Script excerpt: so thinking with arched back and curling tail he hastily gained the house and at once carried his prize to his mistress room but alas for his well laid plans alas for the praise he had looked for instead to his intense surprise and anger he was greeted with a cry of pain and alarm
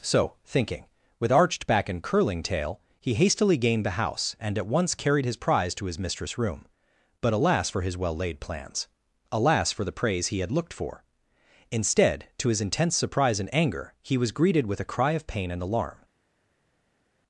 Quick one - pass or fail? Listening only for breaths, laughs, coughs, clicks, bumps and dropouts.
pass